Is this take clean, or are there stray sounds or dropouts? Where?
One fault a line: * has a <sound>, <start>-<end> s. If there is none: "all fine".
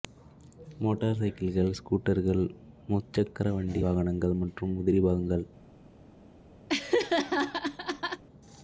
* has a laugh, 6.7-8.2 s